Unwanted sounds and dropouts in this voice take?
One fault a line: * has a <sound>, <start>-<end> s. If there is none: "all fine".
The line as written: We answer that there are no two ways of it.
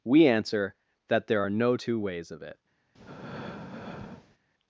* has a breath, 2.9-4.4 s